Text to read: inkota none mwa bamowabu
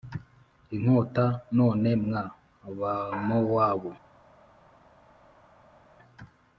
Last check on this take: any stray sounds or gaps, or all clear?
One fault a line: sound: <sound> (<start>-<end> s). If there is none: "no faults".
no faults